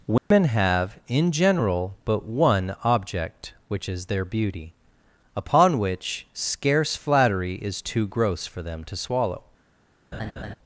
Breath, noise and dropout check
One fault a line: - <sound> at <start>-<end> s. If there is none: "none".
- dropout at 0.2-0.3 s
- laugh at 10.1-10.6 s